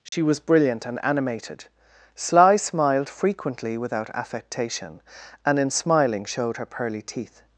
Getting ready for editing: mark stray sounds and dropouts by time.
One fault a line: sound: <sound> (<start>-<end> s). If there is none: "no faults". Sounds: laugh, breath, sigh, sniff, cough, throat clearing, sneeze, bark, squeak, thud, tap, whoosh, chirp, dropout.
sound: dropout (0.1-0.1 s)